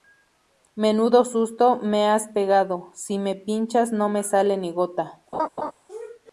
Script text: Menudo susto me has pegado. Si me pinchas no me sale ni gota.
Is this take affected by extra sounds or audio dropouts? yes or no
yes